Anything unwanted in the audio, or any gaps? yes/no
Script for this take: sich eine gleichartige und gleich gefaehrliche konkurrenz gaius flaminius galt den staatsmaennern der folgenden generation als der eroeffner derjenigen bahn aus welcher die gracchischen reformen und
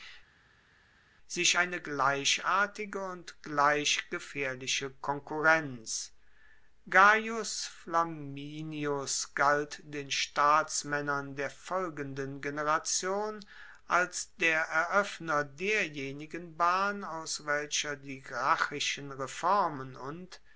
no